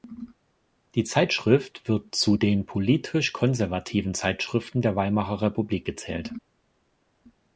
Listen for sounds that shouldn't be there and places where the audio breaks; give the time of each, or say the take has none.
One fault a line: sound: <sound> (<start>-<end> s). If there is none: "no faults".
no faults